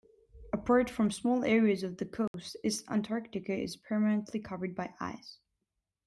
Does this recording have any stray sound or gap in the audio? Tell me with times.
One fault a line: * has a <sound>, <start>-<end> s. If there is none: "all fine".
* has a dropout, 2.3-2.3 s